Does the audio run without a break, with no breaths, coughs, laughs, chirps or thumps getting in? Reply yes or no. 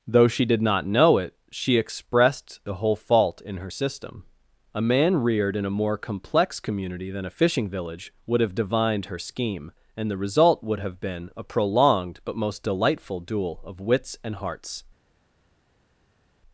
yes